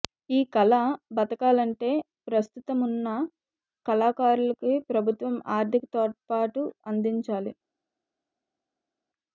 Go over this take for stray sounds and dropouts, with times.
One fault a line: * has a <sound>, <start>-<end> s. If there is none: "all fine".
all fine